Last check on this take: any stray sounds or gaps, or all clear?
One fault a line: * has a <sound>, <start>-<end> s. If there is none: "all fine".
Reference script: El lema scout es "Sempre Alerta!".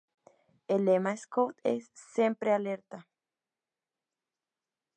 all fine